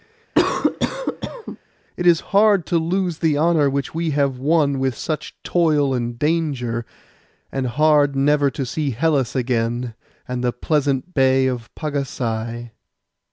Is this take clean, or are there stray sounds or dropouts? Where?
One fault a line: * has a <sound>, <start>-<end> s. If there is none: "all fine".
* has a cough, 0.3-1.6 s